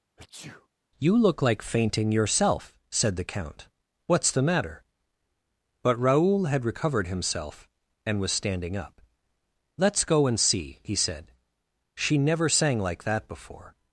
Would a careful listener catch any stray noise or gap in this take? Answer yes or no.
yes